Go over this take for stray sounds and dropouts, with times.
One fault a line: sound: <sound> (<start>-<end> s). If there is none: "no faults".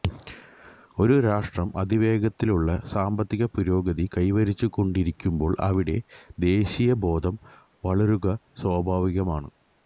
no faults